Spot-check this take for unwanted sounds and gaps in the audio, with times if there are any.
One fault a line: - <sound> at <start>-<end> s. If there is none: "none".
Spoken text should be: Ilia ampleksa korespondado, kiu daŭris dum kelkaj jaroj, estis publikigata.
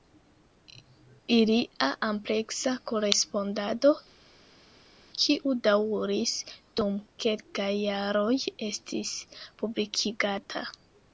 none